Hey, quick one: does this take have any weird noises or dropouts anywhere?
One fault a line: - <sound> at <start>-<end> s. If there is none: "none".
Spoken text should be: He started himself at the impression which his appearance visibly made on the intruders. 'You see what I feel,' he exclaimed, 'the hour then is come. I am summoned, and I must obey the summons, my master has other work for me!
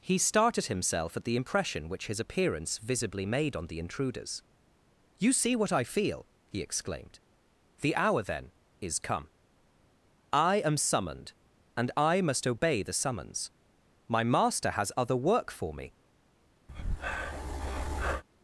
- breath at 16.7-18.2 s